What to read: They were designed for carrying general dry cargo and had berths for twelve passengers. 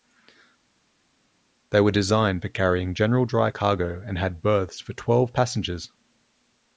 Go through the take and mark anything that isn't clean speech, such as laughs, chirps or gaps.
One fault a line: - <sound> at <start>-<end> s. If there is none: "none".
none